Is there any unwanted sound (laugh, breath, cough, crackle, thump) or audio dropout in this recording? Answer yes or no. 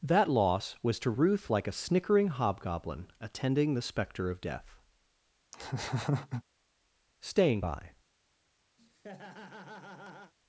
yes